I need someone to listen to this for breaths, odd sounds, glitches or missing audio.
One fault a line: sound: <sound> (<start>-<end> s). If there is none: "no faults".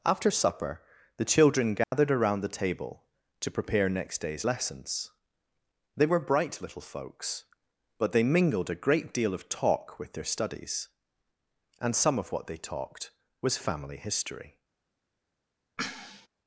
sound: dropout (1.8-1.9 s)
sound: sneeze (15.8-16.3 s)